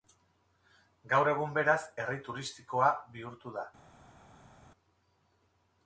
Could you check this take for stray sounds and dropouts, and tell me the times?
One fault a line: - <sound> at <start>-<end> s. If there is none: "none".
none